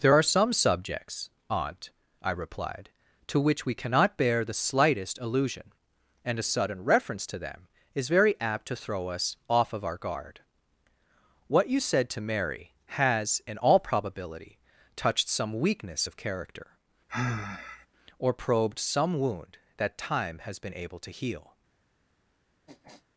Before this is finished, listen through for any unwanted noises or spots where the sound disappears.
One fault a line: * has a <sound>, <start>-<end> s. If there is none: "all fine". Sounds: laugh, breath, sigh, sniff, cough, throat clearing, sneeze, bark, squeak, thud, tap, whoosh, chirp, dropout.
* has a sigh, 17.1-17.9 s
* has a sniff, 22.7-23.0 s